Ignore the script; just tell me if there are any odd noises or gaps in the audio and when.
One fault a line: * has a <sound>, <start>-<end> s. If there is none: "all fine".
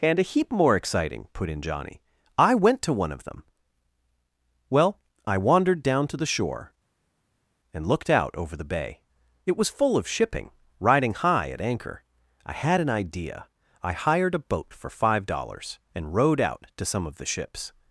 all fine